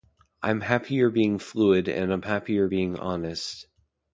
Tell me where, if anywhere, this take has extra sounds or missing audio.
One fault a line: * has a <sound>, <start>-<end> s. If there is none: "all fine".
all fine